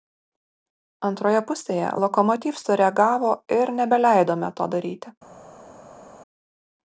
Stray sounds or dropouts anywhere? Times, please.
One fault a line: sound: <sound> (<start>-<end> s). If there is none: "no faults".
no faults